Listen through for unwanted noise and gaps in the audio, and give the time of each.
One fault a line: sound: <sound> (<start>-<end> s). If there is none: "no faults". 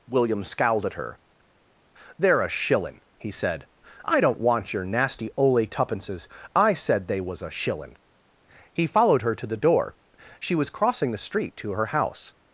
no faults